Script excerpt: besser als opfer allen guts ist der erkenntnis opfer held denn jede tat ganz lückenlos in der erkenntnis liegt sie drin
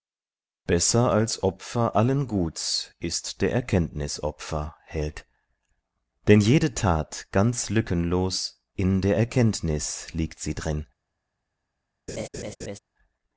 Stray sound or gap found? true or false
true